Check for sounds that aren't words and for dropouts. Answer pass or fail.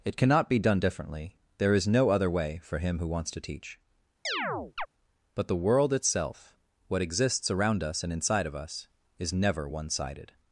fail